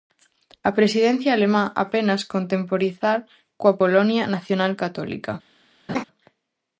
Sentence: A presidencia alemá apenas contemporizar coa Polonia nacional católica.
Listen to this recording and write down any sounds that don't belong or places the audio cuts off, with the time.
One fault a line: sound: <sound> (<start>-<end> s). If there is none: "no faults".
sound: laugh (5.9-6.0 s)